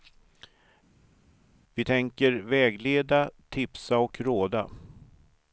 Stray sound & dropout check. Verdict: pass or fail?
pass